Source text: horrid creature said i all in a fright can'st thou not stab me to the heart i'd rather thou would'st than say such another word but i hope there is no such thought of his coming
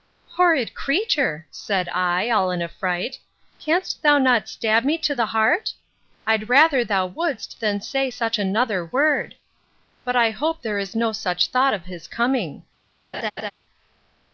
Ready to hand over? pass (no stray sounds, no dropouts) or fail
fail